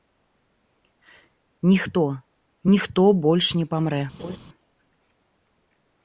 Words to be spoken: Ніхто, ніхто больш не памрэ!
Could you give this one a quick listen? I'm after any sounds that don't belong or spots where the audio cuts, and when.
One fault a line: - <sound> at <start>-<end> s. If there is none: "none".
- laugh at 4.2-4.4 s